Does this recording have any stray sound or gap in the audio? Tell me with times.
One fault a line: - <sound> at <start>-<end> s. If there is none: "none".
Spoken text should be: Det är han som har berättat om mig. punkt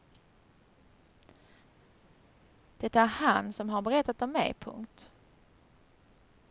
none